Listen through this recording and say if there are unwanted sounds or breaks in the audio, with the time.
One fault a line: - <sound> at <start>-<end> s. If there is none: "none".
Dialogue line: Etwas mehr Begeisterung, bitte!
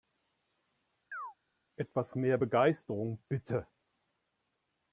- chirp at 1.1-1.3 s